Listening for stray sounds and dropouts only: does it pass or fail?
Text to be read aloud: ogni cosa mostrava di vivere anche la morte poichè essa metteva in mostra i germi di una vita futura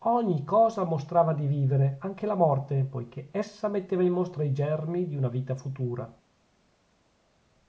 pass